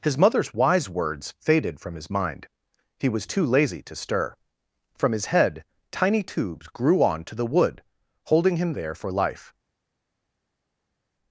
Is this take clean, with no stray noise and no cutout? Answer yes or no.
yes